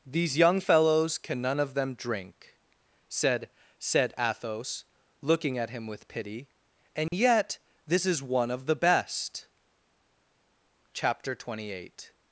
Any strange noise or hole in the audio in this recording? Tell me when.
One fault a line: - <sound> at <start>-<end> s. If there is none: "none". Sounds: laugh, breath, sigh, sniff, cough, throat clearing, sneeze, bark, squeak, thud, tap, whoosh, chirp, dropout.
- dropout at 7.1-7.1 s